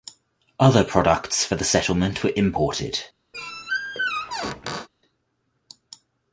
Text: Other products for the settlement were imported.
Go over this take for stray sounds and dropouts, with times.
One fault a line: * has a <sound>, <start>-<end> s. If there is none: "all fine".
* has a squeak, 3.3-4.9 s